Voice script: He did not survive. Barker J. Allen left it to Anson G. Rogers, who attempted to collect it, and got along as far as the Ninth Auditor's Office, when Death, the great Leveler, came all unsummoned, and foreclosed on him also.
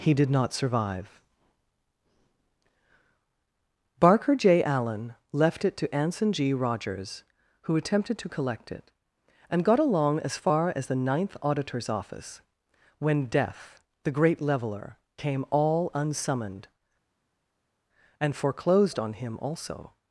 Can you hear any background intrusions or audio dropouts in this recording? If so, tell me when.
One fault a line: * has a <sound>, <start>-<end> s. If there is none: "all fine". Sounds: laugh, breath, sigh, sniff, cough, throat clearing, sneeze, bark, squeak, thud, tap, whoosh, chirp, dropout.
all fine